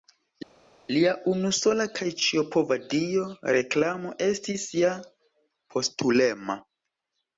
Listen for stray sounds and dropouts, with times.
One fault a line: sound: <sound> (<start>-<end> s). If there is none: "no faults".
no faults